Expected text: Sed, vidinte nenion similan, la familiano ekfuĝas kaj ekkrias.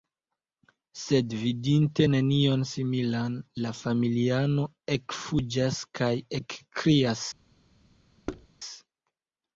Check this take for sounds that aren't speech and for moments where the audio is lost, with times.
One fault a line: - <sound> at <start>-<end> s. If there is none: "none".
- thud at 8.3-8.5 s